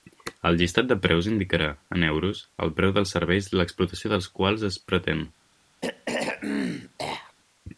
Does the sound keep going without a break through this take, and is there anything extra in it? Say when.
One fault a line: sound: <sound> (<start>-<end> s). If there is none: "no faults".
sound: throat clearing (5.8-7.3 s)